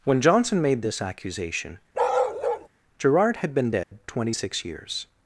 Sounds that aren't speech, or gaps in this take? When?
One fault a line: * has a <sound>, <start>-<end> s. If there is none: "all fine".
* has a bark, 1.9-2.7 s
* has a dropout, 3.8-3.9 s